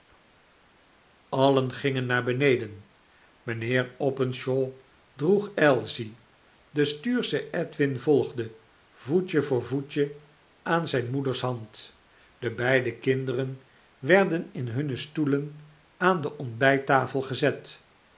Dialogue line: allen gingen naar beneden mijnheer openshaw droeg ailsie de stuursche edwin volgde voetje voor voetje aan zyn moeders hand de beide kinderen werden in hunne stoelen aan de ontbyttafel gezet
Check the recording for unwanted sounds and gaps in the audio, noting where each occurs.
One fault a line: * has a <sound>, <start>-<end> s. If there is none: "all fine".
all fine